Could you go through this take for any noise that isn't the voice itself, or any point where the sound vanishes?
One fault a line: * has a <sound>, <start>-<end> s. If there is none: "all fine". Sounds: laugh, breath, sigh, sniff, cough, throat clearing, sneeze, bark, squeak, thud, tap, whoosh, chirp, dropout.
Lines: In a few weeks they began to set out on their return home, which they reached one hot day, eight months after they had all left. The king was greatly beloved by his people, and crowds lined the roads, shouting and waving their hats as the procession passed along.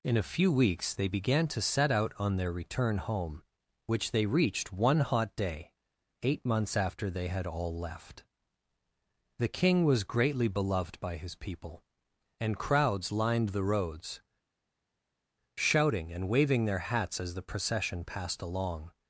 all fine